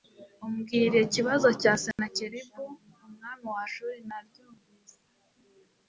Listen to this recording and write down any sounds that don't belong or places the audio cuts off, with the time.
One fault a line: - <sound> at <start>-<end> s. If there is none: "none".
- dropout at 1.9-2.0 s